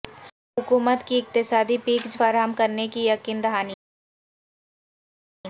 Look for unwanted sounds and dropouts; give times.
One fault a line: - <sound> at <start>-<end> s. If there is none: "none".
none